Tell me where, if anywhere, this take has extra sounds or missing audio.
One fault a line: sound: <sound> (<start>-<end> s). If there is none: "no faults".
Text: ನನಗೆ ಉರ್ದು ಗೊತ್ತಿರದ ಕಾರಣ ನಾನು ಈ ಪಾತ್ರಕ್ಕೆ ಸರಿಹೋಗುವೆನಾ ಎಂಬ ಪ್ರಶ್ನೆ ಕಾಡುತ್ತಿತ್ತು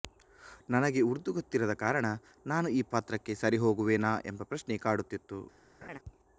sound: laugh (5.8-6.0 s)